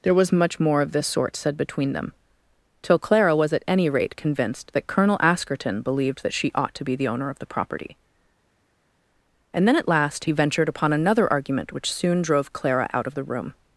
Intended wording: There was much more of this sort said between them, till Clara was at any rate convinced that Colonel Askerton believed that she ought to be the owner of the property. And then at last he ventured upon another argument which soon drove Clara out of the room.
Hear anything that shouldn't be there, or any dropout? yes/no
no